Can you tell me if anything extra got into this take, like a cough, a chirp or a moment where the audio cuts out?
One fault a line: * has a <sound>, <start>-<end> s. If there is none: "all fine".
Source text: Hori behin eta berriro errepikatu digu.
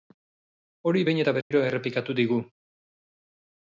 * has a dropout, 1.4-1.5 s